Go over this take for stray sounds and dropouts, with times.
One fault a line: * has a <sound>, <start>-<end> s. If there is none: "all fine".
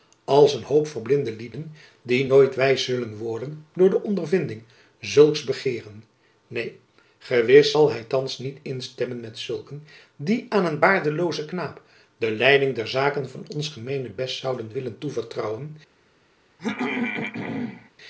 * has a throat clearing, 16.6-17.9 s